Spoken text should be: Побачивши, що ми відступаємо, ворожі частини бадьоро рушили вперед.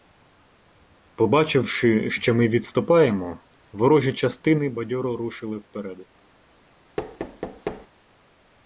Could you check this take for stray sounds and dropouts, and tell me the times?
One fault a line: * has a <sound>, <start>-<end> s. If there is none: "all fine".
* has a thud, 7.0-7.9 s